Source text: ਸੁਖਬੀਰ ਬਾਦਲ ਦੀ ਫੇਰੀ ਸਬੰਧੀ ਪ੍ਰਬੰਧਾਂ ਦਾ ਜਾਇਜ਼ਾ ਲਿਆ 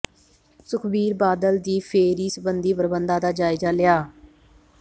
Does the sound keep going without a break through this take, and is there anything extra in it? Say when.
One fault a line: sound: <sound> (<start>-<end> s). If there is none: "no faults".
no faults